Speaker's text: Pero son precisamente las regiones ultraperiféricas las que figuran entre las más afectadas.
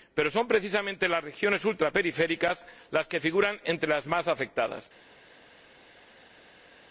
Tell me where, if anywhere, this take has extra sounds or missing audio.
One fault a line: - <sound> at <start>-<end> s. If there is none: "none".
none